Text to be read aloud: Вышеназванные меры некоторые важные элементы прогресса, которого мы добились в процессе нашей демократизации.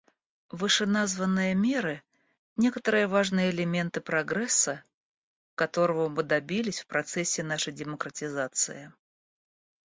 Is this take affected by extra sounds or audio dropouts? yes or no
no